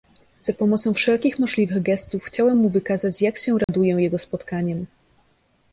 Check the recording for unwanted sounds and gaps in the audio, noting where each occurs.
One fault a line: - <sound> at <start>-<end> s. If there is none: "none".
- dropout at 3.6-3.7 s